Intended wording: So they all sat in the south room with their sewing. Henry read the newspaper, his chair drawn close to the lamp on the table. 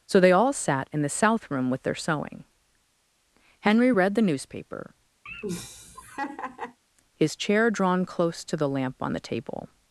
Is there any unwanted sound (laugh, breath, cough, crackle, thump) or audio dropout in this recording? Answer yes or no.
yes